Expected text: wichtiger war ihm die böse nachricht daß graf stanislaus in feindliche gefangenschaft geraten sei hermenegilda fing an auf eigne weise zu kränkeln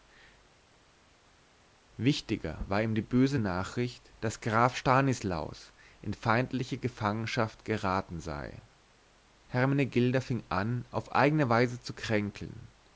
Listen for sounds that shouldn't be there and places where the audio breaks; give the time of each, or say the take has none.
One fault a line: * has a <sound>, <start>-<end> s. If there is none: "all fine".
all fine